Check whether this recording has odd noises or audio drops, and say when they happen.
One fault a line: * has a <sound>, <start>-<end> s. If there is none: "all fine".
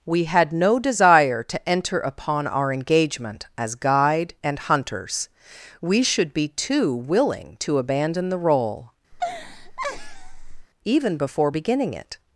* has a laugh, 9.1-10.7 s